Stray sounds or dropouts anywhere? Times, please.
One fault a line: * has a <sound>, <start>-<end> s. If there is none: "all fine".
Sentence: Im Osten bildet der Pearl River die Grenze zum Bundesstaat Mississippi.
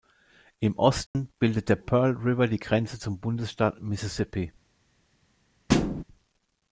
* has a dropout, 1.1-1.1 s
* has a thud, 5.7-6.0 s